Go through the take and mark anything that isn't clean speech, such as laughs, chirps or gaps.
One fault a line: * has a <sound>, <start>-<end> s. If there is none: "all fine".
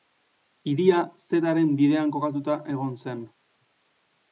all fine